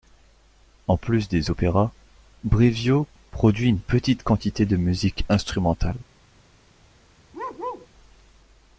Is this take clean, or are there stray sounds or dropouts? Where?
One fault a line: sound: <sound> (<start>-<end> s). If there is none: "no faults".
sound: bark (7.3-7.9 s)